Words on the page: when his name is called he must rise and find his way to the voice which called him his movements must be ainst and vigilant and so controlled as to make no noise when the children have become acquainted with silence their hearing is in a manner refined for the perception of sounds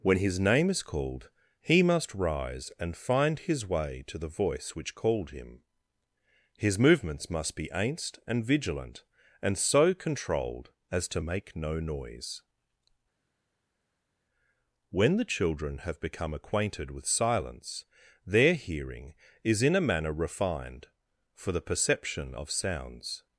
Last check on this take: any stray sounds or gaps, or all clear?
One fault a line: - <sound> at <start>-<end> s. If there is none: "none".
none